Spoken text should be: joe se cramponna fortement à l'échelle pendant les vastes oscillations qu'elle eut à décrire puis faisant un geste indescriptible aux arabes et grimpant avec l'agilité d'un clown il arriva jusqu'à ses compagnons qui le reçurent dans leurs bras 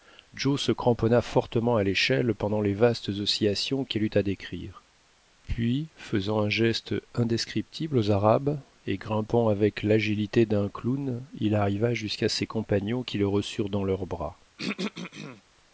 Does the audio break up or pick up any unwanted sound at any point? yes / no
yes